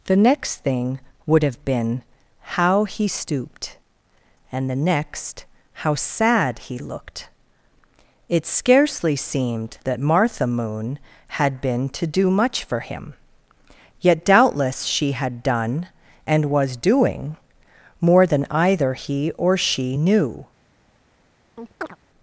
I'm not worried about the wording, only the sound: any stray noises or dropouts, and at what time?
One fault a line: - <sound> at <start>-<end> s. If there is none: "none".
- chirp at 21.6-22.0 s